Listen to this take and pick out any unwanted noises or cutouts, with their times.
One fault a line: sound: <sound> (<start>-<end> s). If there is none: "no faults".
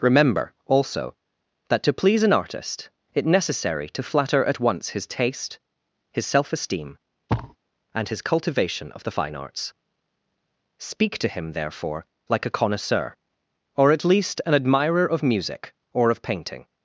sound: thud (7.3-7.6 s)